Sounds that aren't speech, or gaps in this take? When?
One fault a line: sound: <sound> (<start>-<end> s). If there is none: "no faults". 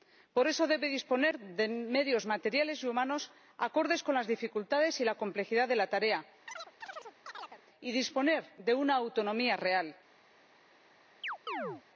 sound: chirp (6.5-7.6 s)
sound: chirp (11.2-11.8 s)